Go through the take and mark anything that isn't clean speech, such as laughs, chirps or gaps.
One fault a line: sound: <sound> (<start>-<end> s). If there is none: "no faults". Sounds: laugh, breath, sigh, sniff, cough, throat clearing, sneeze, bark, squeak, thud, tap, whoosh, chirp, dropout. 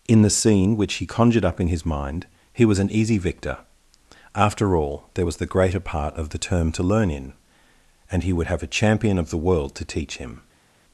no faults